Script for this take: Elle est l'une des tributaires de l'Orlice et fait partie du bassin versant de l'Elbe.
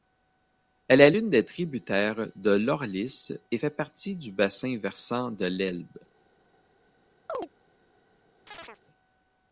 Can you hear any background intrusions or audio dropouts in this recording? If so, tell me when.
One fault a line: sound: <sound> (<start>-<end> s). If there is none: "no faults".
sound: chirp (7.3-7.5 s)
sound: chirp (8.5-8.8 s)